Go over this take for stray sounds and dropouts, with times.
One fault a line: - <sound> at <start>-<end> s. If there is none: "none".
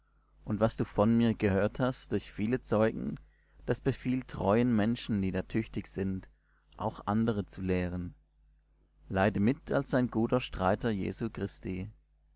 none